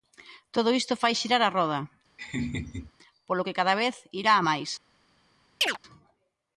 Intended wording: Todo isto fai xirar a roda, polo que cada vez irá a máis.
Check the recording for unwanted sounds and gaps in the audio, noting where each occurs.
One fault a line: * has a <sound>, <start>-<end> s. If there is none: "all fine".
* has a laugh, 2.2-2.9 s
* has a chirp, 5.6-5.8 s